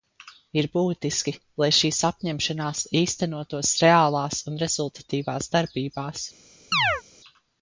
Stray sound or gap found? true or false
true